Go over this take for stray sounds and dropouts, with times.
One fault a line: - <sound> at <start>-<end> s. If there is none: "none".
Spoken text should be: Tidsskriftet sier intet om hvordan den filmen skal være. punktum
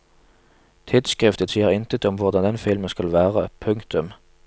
none